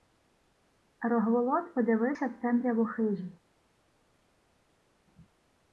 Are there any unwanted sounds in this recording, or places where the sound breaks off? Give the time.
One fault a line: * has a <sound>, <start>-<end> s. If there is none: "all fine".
all fine